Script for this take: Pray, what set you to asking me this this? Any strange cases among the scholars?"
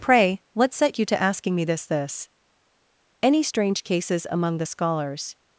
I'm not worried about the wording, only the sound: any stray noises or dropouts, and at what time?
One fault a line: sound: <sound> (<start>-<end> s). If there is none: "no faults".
no faults